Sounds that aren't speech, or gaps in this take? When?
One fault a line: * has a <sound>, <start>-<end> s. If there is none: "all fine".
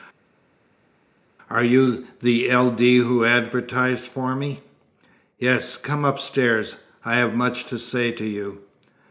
all fine